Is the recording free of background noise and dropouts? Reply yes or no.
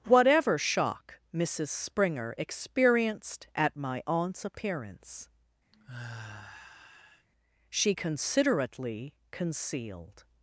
no